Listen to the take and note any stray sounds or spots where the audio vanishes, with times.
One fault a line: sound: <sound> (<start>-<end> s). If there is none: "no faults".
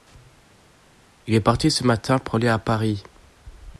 no faults